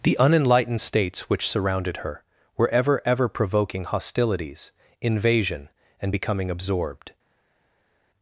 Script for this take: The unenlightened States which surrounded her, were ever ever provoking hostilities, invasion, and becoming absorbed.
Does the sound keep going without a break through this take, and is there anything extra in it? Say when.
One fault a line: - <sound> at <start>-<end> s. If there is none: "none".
none